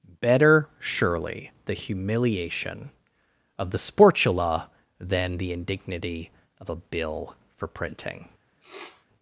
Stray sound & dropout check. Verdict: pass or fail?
fail